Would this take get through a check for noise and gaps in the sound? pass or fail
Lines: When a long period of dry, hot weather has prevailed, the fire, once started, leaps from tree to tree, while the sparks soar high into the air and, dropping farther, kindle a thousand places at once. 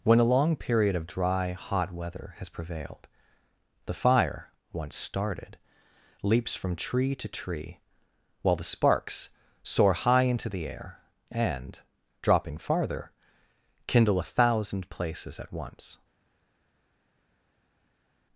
pass